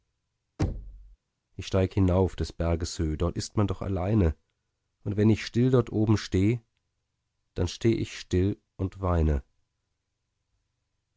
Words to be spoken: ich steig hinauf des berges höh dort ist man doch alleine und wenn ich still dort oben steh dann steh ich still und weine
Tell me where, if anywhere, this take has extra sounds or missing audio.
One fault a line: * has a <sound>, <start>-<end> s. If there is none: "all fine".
* has a thud, 0.6-1.2 s